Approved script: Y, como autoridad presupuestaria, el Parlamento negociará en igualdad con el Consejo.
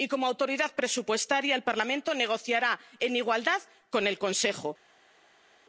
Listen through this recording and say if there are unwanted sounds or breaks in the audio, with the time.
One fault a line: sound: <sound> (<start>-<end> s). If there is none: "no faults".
no faults